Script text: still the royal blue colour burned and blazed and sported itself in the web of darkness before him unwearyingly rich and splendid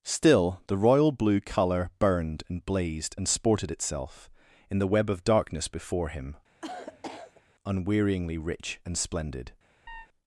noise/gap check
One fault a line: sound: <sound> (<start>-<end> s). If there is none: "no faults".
sound: cough (6.6-7.4 s)
sound: chirp (9.9-10.1 s)